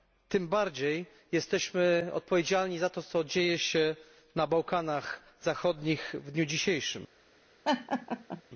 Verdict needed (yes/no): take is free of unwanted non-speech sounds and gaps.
no